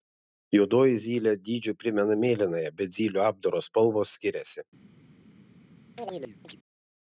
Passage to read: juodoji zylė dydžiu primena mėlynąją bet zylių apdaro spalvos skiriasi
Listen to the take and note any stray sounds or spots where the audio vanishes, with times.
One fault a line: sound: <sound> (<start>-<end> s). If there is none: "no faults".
sound: chirp (6.0-6.6 s)